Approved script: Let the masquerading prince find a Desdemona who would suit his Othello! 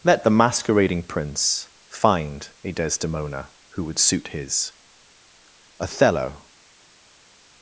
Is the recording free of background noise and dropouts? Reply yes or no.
yes